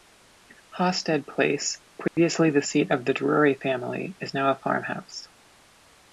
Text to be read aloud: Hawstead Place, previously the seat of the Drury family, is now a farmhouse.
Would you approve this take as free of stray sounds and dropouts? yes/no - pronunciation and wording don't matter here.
no